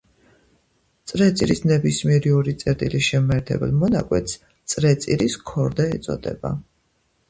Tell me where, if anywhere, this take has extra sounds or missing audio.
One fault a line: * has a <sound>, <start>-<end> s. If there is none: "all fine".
all fine